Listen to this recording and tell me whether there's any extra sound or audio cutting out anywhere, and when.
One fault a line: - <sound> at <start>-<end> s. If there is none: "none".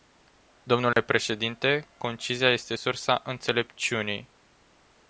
- dropout at 0.9-1.0 s